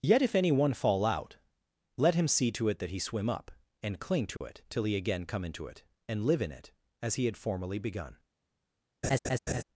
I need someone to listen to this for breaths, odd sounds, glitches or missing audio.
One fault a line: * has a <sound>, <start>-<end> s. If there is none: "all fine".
* has a dropout, 4.4-4.4 s
* has a laugh, 9.0-9.6 s